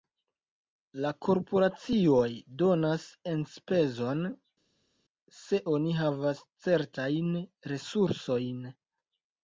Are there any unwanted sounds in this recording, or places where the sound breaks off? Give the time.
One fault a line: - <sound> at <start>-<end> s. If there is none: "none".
none